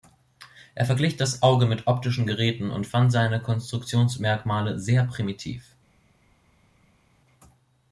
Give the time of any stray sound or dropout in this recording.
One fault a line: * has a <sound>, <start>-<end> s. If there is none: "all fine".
all fine